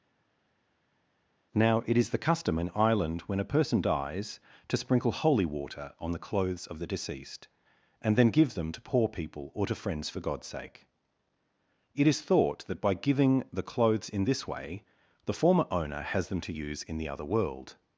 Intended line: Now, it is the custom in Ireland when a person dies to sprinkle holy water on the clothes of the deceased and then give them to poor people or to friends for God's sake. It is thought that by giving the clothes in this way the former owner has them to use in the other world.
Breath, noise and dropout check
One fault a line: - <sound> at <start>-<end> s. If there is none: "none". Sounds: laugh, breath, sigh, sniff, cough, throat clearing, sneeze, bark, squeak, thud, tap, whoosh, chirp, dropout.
none